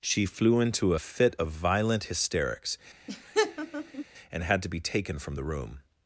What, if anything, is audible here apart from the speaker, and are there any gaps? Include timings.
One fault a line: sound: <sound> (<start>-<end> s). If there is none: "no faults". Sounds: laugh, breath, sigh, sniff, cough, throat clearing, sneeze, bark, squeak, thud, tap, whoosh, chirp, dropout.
sound: laugh (3.1-4.0 s)